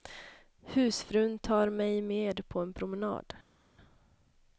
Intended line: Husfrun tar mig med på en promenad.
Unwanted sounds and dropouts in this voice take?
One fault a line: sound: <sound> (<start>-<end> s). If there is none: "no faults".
no faults